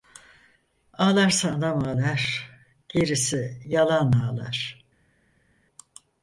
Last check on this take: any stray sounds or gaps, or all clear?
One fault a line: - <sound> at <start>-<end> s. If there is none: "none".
none